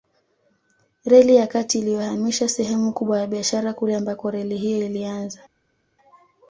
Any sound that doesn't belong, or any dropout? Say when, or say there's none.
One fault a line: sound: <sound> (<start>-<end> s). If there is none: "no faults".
no faults